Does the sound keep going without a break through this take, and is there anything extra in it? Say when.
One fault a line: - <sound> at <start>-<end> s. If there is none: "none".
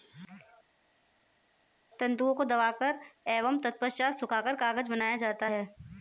none